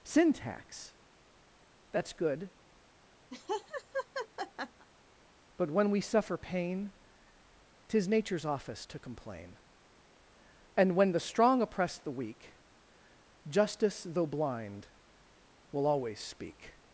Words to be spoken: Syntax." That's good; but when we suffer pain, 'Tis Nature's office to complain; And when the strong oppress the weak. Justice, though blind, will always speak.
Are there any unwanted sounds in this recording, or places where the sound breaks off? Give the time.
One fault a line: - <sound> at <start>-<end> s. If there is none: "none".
- laugh at 3.3-4.9 s